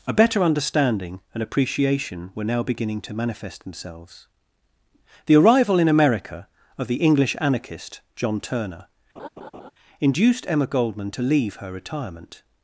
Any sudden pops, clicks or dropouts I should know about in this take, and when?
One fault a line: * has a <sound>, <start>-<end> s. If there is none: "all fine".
* has a laugh, 9.2-9.7 s